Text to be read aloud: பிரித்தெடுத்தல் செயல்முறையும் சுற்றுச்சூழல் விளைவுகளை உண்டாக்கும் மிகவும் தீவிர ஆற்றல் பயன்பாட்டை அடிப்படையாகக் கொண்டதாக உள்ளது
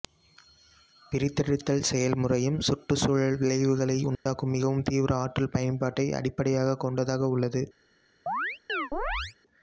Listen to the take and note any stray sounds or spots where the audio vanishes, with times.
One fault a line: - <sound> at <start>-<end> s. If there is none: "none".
- dropout at 4.2-4.3 s
- chirp at 8.3-9.4 s